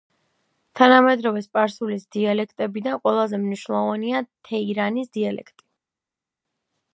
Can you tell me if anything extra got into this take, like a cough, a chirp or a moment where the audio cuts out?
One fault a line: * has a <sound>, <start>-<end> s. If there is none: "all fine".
all fine